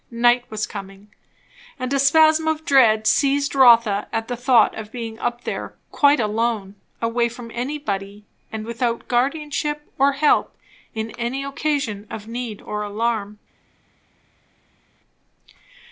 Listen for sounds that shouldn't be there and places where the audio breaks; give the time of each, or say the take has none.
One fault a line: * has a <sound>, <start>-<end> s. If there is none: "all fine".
all fine